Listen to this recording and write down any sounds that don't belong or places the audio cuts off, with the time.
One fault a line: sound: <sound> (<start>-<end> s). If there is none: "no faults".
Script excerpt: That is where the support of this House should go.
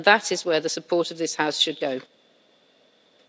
no faults